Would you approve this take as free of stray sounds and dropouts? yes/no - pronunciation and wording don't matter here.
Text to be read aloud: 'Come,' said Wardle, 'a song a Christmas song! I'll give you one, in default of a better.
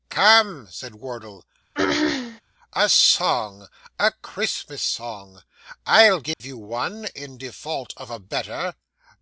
no